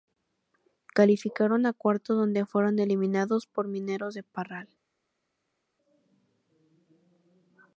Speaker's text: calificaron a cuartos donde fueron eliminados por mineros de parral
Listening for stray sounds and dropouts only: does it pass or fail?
pass